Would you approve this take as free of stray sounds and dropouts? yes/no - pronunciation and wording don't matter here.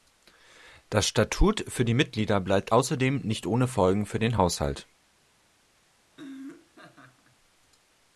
no